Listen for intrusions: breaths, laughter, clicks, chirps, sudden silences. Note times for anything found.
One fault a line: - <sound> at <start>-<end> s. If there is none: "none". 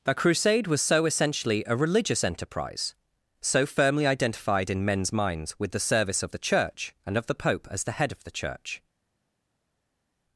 none